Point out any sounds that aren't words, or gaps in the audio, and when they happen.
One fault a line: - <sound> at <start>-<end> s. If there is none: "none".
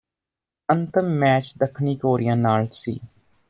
none